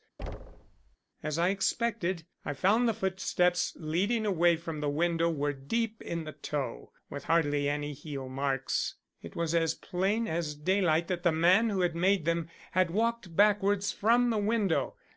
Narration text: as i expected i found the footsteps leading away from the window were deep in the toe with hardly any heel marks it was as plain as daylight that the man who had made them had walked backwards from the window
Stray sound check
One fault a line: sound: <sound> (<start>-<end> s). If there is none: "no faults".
sound: thud (0.2-1.0 s)